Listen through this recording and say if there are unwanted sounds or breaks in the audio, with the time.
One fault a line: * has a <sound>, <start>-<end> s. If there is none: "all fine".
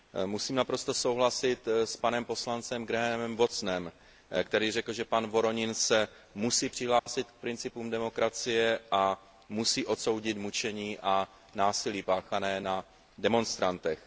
* has a dropout, 7.0-7.1 s